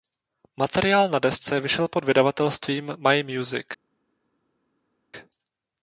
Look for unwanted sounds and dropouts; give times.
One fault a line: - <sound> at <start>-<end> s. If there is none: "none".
none